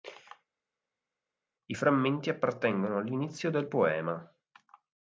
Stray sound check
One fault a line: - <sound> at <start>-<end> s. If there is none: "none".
none